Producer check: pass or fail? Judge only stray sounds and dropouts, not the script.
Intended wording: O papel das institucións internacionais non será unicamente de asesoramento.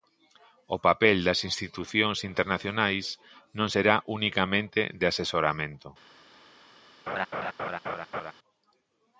fail